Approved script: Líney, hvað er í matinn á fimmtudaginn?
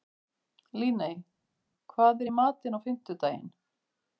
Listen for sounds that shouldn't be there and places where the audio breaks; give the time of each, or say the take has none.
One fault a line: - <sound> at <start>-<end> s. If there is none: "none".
none